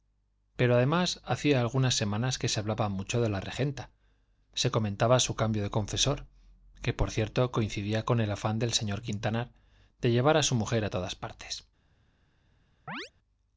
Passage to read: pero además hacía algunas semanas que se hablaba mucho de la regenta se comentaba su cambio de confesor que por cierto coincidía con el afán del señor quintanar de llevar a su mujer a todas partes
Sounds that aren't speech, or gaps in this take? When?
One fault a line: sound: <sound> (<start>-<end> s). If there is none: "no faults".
sound: chirp (12.9-13.1 s)